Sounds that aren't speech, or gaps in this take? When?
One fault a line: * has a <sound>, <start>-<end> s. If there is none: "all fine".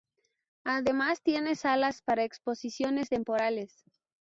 all fine